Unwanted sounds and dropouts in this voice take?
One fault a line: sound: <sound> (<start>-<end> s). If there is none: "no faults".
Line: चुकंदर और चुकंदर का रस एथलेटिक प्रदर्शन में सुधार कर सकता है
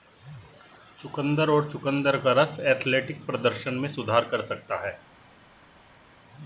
no faults